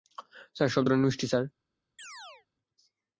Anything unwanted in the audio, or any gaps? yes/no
yes